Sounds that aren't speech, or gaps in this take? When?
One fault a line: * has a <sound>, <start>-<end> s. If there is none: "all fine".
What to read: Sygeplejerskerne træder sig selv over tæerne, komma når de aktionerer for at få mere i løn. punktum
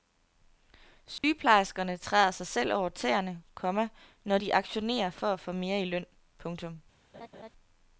* has a dropout, 1.2-1.2 s
* has a laugh, 7.1-7.5 s